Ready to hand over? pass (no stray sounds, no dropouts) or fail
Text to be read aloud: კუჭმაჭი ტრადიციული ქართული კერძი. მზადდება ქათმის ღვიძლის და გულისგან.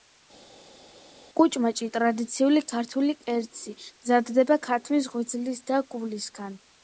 pass